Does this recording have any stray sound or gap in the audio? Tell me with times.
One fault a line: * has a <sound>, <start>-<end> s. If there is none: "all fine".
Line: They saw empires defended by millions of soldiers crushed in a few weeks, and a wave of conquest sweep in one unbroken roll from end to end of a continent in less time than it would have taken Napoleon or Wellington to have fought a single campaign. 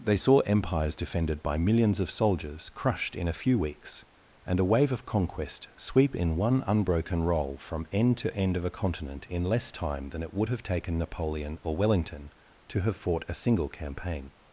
all fine